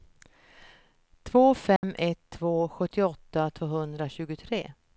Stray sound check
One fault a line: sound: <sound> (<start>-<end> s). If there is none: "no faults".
sound: dropout (1.8-1.8 s)